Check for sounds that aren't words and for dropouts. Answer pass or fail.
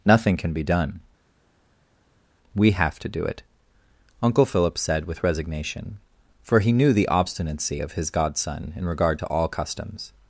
pass